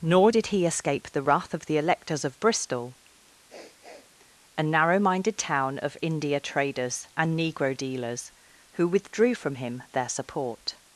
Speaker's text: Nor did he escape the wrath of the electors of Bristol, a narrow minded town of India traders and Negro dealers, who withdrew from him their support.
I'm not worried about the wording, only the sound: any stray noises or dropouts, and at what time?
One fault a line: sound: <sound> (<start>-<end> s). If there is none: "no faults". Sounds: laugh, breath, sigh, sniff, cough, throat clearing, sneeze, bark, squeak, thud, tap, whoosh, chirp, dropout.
sound: sniff (3.5-4.1 s)